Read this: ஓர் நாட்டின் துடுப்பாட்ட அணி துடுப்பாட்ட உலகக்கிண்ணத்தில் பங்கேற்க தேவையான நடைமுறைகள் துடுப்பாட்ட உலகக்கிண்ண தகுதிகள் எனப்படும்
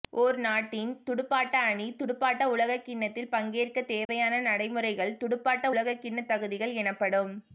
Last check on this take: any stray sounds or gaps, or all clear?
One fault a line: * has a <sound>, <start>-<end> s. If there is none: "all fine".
* has a dropout, 4.0-4.1 s